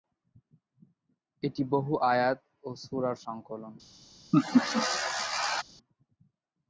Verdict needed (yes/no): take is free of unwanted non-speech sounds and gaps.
no